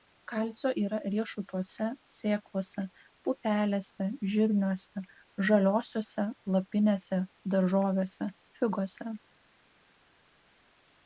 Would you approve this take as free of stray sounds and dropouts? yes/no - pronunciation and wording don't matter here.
yes